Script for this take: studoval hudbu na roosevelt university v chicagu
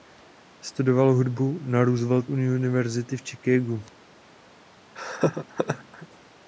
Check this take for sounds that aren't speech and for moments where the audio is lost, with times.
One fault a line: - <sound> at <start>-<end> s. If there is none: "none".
- laugh at 4.9-6.1 s